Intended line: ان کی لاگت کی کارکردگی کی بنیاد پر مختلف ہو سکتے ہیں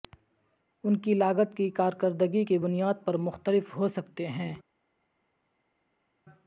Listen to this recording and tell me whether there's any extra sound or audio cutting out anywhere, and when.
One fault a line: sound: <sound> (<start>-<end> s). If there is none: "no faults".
no faults